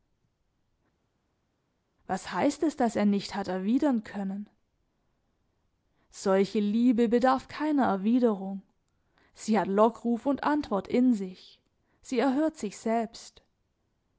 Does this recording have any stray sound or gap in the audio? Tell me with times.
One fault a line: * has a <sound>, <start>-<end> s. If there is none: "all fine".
all fine